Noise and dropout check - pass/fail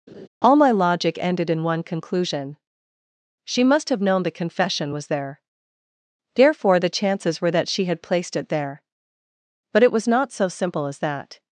fail